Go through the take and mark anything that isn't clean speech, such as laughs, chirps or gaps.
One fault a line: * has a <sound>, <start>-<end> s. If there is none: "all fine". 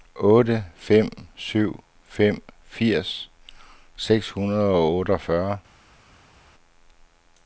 all fine